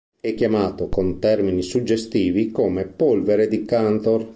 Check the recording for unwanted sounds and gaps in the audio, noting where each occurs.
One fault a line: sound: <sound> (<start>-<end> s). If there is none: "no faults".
no faults